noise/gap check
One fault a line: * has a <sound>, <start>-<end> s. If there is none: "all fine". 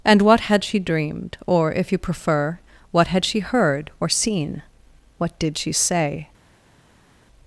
all fine